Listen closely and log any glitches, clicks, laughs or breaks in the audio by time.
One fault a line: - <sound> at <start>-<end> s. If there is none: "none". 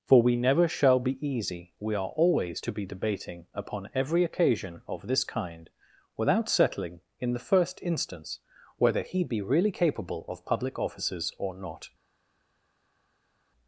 none